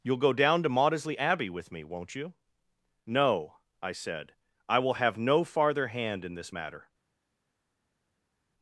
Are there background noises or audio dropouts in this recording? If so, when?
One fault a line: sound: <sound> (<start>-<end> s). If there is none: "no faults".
no faults